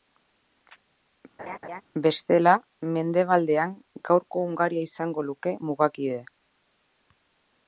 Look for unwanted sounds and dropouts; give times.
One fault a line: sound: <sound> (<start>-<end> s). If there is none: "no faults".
sound: laugh (1.4-1.8 s)